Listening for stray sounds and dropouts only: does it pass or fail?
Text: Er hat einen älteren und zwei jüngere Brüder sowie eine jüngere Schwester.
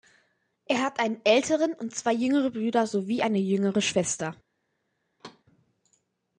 fail